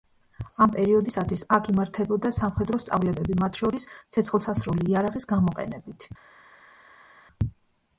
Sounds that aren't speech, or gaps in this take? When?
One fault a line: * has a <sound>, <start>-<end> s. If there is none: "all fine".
all fine